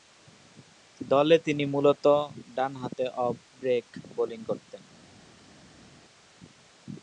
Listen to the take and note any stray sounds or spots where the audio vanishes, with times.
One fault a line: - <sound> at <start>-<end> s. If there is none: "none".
none